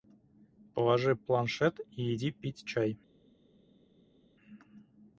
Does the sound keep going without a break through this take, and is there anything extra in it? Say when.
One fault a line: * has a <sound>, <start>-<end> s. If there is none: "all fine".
all fine